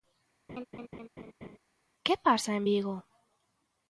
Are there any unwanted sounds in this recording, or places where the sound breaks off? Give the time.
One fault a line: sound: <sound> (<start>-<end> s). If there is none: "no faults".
sound: laugh (0.5-1.6 s)